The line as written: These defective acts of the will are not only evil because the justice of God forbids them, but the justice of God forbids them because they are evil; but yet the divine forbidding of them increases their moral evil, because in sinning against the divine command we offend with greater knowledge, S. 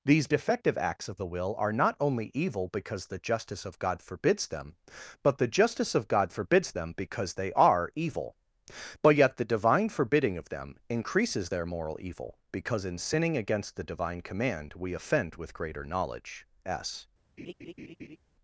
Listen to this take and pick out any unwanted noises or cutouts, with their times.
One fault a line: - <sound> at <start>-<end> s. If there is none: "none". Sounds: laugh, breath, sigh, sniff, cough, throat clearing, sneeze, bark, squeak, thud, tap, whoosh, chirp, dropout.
- laugh at 17.4-18.2 s